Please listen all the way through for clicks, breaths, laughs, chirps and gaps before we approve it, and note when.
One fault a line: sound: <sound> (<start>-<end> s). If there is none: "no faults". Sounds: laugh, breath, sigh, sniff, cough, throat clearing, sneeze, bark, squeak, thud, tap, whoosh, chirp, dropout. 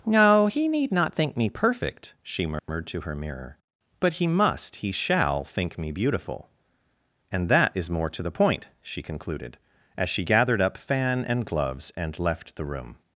sound: dropout (2.6-2.7 s)